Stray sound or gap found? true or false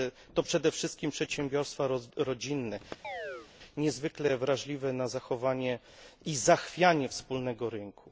true